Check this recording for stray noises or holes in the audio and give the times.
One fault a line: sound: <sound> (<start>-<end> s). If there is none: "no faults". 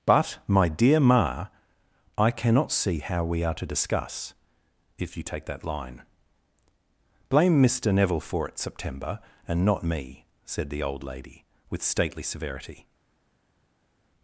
no faults